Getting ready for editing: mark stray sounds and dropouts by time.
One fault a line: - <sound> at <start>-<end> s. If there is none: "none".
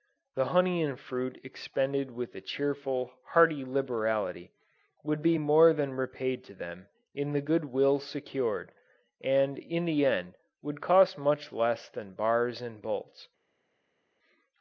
none